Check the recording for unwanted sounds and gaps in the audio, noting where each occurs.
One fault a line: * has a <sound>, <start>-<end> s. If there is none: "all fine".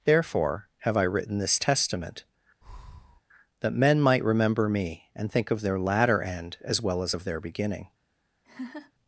* has a breath, 2.6-3.2 s
* has a laugh, 8.4-8.9 s